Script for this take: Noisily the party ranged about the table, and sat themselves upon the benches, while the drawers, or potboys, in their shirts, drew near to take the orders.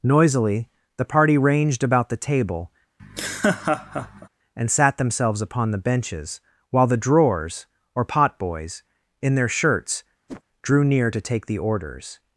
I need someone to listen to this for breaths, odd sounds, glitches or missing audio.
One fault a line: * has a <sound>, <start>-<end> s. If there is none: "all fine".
* has a laugh, 3.0-4.3 s
* has a whoosh, 10.3-10.4 s